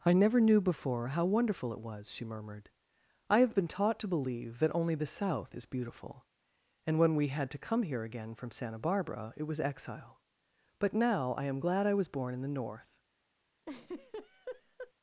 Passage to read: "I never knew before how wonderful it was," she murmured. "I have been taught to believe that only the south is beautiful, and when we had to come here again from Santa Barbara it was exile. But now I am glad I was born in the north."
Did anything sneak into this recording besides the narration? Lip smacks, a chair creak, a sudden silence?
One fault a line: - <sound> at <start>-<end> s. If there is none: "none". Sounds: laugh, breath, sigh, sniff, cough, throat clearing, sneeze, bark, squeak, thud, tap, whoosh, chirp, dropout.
- laugh at 13.6-14.9 s